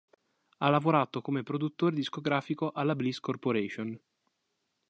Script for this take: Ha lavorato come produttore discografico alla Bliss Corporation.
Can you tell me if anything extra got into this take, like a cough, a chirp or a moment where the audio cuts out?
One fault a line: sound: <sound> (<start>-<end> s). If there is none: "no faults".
no faults